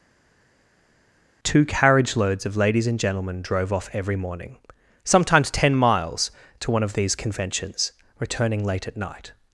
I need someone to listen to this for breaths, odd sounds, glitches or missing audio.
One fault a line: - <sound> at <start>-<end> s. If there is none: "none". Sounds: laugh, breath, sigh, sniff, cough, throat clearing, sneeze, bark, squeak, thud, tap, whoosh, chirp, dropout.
none